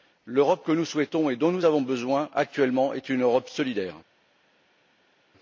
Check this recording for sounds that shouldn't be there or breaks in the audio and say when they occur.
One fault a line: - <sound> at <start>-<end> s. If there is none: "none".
none